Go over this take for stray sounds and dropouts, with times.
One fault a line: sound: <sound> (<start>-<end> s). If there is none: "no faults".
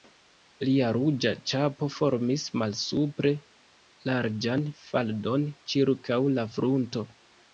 no faults